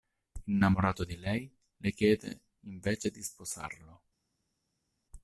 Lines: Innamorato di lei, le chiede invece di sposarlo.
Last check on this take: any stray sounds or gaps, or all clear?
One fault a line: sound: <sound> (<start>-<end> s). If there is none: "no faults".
no faults